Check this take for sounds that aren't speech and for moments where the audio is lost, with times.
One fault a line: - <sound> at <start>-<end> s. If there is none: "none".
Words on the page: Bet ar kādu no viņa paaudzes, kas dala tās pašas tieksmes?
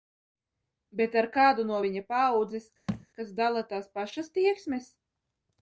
- thud at 2.9-3.1 s